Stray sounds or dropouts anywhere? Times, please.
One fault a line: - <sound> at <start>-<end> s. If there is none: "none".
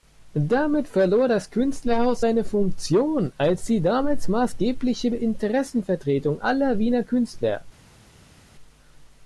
none